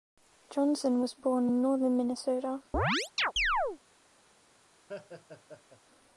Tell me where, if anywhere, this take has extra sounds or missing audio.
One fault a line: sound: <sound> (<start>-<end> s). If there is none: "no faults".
sound: chirp (2.7-3.8 s)
sound: laugh (4.9-5.8 s)